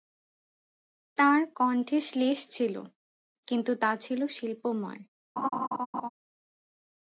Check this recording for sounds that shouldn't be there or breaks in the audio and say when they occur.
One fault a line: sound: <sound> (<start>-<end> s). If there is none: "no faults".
sound: laugh (5.4-6.1 s)